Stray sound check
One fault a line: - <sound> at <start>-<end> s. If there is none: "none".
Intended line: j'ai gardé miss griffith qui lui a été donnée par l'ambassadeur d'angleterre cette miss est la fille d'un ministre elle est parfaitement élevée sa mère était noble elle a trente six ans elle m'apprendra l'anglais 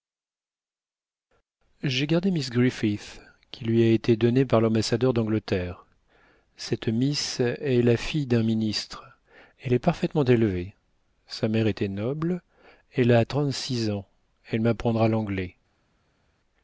none